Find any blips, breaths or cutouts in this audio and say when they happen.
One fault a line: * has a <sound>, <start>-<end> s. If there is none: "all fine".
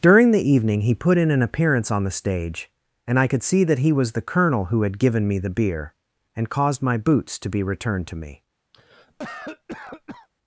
* has a cough, 8.7-10.3 s